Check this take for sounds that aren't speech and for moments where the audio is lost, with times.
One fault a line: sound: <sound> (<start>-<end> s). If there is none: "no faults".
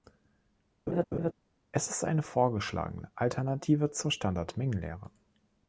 sound: laugh (0.9-1.3 s)